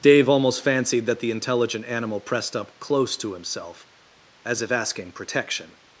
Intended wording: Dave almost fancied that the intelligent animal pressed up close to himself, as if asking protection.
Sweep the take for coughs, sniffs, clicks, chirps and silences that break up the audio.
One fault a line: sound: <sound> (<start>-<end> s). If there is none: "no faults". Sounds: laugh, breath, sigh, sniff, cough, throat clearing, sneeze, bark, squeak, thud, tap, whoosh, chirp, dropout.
no faults